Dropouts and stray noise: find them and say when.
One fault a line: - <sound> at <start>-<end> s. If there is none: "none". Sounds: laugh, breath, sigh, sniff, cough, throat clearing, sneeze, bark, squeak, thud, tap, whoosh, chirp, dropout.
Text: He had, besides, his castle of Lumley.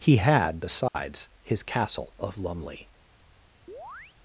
- dropout at 0.9-0.9 s
- chirp at 3.7-4.2 s